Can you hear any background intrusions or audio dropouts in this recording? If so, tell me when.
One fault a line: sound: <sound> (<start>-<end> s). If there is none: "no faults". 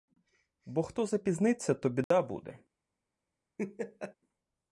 sound: dropout (2.0-2.1 s)
sound: laugh (3.6-4.1 s)